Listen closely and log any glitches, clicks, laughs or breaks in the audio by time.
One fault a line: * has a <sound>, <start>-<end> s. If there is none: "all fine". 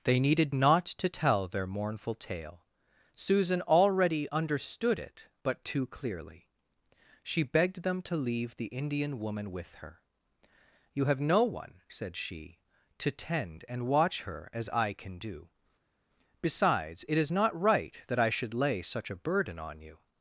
all fine